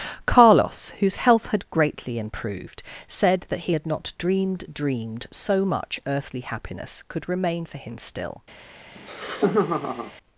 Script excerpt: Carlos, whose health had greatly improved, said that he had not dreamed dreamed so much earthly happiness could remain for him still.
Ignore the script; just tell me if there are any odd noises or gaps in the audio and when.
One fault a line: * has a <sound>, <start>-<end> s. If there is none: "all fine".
* has a laugh, 8.9-10.1 s